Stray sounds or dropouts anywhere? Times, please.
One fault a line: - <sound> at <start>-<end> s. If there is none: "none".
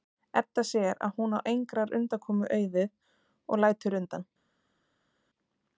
none